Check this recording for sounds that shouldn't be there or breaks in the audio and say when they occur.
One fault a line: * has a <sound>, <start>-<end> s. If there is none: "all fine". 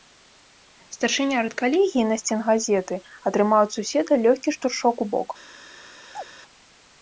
* has a chirp, 6.1-6.3 s